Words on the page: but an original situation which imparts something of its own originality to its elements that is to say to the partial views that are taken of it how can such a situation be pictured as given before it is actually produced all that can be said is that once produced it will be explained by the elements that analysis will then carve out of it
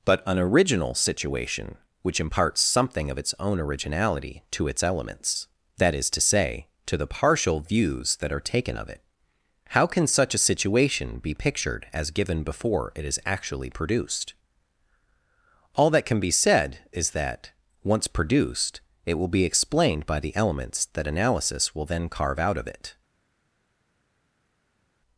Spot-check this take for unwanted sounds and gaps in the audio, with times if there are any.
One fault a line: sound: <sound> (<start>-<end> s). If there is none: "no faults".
no faults